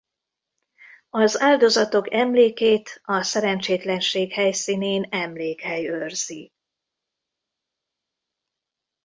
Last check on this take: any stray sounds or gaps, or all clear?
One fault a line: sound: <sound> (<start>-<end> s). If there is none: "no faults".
no faults